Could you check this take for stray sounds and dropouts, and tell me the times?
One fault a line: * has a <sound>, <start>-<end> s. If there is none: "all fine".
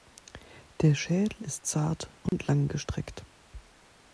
* has a dropout, 2.3-2.3 s